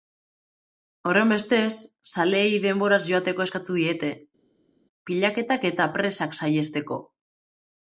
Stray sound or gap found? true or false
false